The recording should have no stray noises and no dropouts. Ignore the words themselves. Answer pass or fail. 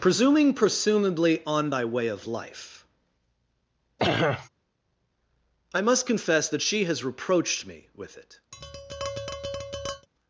fail